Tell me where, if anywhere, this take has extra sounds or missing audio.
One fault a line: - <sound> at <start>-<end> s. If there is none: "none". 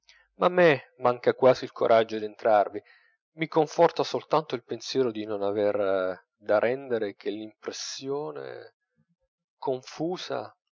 none